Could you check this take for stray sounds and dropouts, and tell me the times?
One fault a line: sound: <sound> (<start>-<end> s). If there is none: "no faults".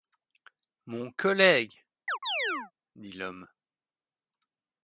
sound: chirp (2.1-2.7 s)